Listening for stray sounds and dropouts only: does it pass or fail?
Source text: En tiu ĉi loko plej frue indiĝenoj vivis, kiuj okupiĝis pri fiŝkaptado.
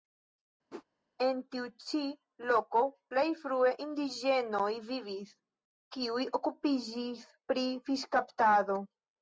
fail